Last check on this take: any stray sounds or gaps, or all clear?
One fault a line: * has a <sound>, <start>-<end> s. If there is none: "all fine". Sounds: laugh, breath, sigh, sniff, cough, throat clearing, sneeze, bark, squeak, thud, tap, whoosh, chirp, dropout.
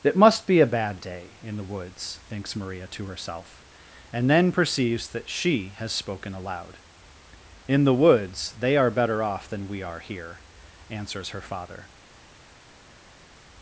all fine